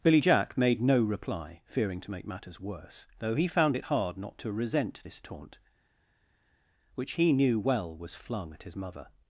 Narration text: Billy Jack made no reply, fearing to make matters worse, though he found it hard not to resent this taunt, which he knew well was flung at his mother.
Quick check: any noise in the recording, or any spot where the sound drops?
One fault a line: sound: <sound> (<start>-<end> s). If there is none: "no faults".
no faults